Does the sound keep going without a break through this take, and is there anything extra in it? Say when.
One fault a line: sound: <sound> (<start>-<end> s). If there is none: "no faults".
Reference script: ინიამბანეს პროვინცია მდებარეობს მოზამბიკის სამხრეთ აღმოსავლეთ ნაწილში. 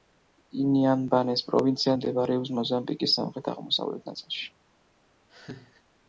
sound: laugh (5.3-5.8 s)